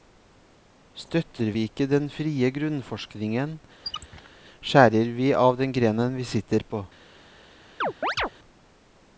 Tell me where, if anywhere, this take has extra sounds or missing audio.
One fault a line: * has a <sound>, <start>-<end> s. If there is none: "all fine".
* has a squeak, 3.8-4.3 s
* has a chirp, 7.8-8.3 s